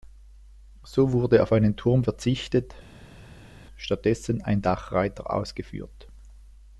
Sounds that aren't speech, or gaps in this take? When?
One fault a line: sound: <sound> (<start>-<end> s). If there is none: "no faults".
no faults